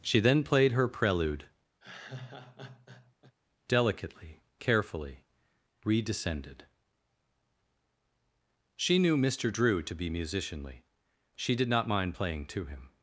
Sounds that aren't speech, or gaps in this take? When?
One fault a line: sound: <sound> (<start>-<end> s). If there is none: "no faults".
sound: laugh (1.8-3.3 s)